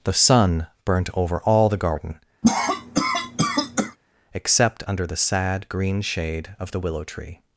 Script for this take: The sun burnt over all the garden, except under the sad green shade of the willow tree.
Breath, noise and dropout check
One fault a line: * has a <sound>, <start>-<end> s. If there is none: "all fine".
* has a cough, 2.4-4.0 s